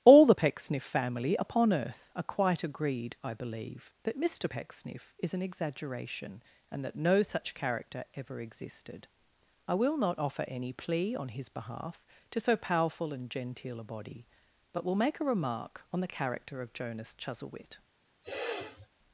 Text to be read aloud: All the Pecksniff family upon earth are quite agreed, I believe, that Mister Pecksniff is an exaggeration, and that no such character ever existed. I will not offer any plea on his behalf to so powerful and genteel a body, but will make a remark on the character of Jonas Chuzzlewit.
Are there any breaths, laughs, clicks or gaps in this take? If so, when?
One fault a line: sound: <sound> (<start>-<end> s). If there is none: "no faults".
sound: sniff (18.2-18.9 s)